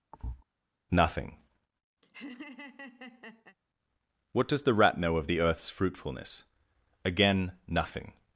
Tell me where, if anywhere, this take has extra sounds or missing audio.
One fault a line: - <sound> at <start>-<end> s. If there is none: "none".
- thud at 0.1-0.4 s
- laugh at 2.0-3.6 s